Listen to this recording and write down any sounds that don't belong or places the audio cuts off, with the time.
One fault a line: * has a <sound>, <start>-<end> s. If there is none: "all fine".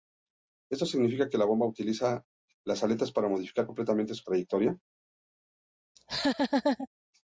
* has a laugh, 6.0-6.9 s